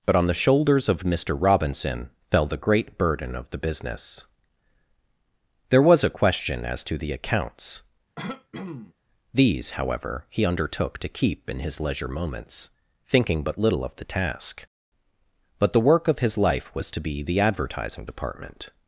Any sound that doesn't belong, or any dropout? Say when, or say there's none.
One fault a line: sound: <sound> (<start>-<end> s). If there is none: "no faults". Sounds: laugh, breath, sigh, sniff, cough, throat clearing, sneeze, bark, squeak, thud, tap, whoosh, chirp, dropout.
sound: throat clearing (8.2-8.9 s)